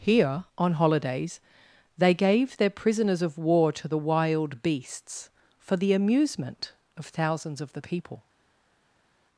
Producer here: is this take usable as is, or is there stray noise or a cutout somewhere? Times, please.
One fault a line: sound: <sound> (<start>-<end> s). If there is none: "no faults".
no faults